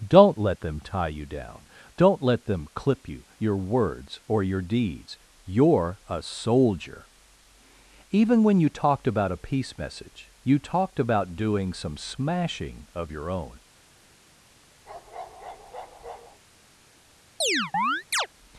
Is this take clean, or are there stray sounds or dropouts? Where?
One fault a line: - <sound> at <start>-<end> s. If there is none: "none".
- bark at 14.8-16.4 s
- chirp at 17.4-18.3 s